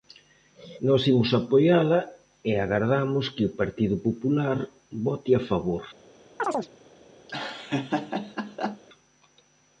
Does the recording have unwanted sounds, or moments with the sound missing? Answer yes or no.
yes